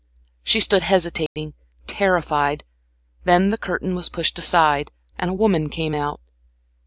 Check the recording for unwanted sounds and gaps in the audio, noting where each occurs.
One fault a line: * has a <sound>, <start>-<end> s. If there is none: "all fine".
* has a dropout, 1.3-1.4 s